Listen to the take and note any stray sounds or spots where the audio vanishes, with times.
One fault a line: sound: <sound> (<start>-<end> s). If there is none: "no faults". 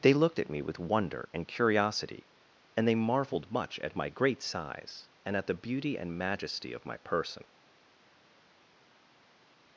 no faults